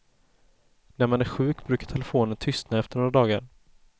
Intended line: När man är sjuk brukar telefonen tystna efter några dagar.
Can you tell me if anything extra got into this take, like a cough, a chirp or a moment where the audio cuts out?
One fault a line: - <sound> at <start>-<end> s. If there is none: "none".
none